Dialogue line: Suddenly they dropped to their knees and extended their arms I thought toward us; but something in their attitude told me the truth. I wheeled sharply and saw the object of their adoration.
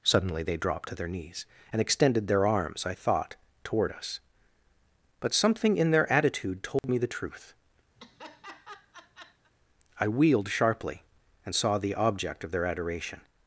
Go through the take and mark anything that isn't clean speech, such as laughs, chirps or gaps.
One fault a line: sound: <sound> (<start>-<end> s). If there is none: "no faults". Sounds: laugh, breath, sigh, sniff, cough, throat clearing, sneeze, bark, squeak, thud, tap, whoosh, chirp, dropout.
sound: dropout (6.8-6.8 s)
sound: laugh (8.0-9.5 s)